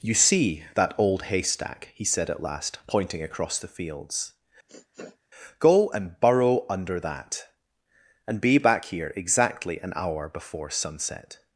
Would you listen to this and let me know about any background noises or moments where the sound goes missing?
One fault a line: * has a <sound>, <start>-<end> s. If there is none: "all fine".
* has a sniff, 4.7-5.2 s